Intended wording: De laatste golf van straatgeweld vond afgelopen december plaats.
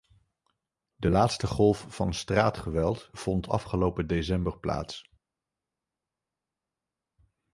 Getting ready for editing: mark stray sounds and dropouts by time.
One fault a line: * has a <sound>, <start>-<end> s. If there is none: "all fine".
all fine